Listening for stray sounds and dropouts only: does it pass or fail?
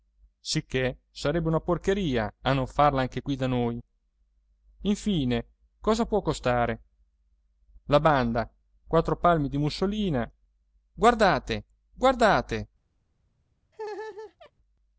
fail